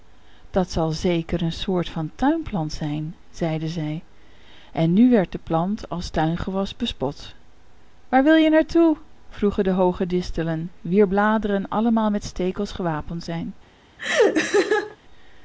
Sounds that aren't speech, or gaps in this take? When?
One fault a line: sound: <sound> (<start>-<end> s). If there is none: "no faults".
sound: laugh (14.0-15.0 s)